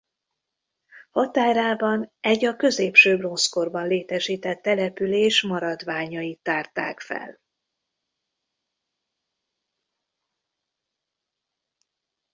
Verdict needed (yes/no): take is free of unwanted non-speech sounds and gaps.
yes